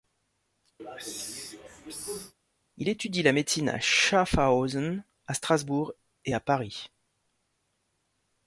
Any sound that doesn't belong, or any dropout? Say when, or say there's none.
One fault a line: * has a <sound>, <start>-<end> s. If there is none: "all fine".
* has a throat clearing, 0.8-2.3 s